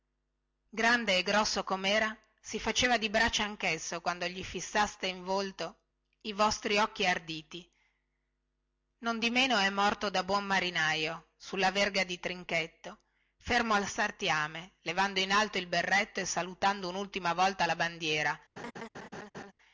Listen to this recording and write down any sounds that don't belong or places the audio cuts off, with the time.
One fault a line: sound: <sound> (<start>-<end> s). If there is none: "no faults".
sound: laugh (18.6-19.5 s)